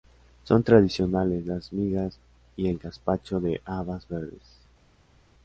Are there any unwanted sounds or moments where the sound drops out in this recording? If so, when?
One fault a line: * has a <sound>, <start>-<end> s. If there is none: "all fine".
all fine